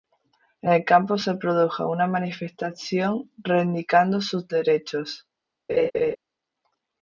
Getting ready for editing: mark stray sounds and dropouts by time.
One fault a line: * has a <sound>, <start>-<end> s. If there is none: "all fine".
* has a laugh, 5.7-6.2 s